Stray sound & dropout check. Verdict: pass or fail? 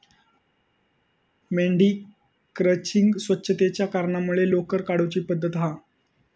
pass